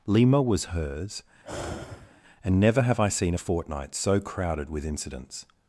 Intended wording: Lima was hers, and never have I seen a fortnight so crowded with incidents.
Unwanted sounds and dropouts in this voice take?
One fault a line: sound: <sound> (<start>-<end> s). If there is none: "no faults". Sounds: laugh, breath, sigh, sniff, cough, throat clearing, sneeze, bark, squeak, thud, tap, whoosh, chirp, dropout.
sound: sigh (1.4-2.2 s)